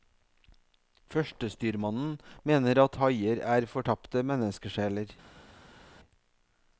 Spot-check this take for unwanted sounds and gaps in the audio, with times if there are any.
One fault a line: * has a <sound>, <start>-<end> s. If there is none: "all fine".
all fine